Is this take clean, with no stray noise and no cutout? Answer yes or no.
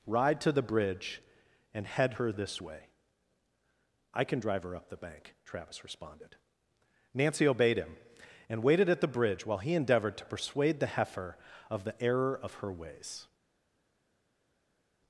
yes